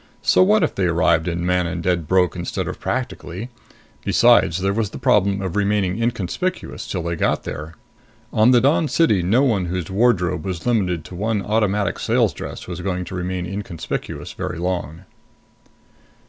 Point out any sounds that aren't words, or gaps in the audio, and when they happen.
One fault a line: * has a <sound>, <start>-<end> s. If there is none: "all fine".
all fine